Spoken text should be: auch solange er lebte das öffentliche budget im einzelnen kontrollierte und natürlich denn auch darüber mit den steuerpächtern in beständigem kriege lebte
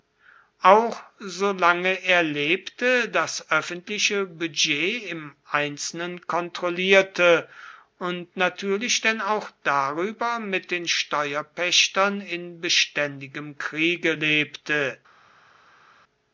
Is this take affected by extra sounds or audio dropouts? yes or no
no